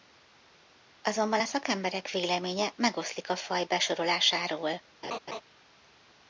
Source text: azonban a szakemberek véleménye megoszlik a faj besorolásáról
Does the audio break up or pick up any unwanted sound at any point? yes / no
yes